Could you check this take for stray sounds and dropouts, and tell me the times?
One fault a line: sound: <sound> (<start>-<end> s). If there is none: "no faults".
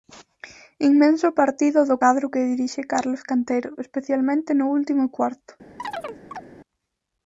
sound: chirp (5.8-6.5 s)